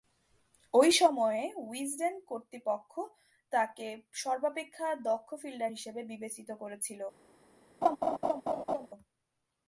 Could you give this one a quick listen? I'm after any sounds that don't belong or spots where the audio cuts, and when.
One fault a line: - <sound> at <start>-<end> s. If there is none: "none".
- laugh at 7.8-8.9 s